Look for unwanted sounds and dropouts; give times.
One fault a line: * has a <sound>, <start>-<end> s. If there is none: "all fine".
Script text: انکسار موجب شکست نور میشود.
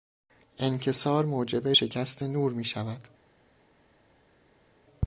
all fine